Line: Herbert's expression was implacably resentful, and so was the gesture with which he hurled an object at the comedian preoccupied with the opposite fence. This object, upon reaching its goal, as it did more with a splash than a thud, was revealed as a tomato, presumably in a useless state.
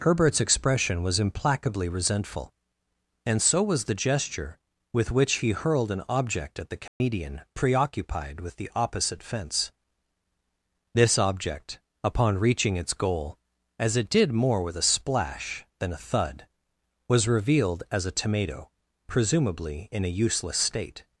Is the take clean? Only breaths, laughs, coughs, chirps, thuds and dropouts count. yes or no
no